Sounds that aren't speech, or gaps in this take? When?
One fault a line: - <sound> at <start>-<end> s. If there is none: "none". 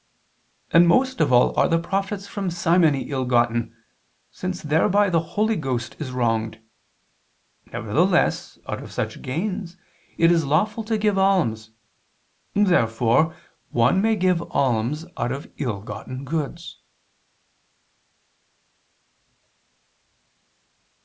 none